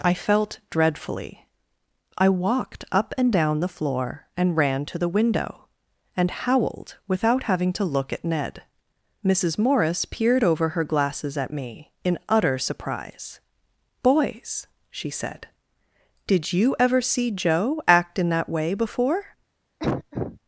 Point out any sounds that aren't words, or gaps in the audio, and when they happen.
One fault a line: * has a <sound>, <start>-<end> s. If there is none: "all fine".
* has a cough, 19.8-20.4 s